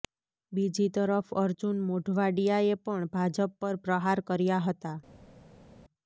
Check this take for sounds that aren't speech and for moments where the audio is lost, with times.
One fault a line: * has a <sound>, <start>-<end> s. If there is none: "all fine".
all fine